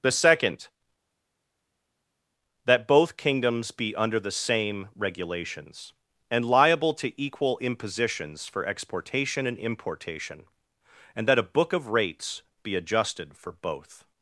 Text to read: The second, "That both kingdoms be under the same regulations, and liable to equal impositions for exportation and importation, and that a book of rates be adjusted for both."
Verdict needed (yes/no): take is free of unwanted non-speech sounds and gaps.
yes